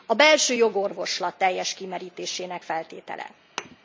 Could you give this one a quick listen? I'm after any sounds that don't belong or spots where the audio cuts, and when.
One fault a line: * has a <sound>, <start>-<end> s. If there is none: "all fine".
* has a thud, 3.6-3.8 s